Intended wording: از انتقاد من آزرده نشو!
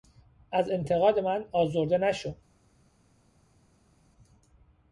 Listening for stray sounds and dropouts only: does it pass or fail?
pass